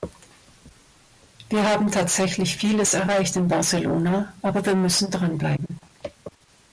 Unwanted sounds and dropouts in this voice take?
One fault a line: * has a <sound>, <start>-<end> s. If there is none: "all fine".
all fine